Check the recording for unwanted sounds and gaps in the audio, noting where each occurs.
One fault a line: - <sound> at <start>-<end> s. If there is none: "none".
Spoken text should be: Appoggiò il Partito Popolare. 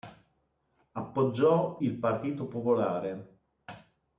none